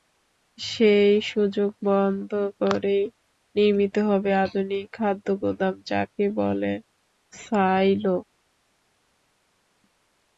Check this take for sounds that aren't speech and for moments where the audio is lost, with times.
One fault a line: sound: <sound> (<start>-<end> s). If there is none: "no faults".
no faults